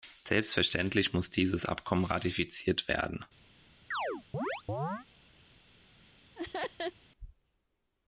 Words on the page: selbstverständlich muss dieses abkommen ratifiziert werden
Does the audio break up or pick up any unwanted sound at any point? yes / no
yes